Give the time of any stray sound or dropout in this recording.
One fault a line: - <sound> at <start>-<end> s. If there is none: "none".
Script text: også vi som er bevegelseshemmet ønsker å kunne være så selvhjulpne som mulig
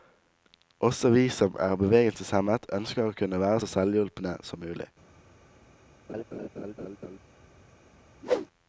- laugh at 6.1-7.2 s
- whoosh at 8.2-8.5 s